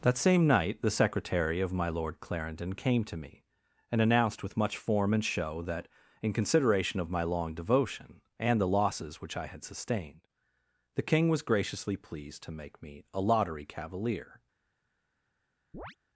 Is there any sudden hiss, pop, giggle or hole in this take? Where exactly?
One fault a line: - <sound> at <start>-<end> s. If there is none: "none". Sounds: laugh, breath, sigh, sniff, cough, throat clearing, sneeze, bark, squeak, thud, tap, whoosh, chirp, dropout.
- chirp at 15.7-16.0 s